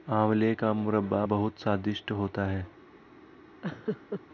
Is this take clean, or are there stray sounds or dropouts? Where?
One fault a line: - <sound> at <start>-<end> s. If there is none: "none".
- laugh at 3.6-4.2 s